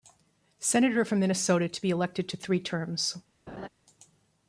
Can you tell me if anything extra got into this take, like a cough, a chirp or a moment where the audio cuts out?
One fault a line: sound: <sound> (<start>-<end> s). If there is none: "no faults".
sound: laugh (3.5-3.7 s)